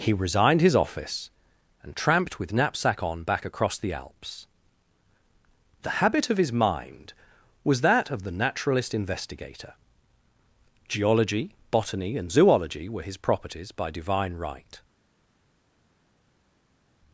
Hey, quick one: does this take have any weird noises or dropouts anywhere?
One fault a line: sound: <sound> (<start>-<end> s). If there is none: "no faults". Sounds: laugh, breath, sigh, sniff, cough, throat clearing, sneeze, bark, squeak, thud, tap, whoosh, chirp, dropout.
no faults